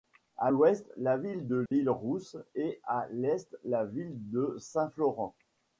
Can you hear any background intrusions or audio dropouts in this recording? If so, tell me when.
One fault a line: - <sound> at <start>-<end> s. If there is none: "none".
- dropout at 1.7-1.7 s